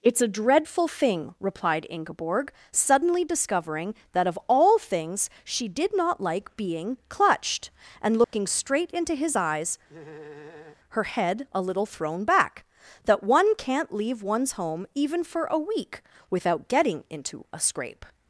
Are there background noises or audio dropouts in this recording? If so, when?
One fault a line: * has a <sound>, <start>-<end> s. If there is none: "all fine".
* has a dropout, 8.2-8.3 s
* has a laugh, 9.9-10.8 s